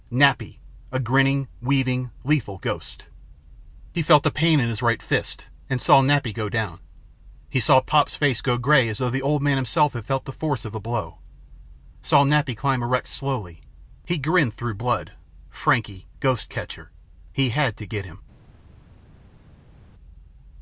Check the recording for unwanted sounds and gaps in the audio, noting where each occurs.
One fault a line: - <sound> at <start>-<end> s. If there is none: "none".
none